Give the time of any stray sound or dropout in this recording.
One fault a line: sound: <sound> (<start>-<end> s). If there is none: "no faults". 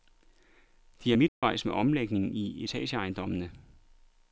sound: dropout (1.3-1.4 s)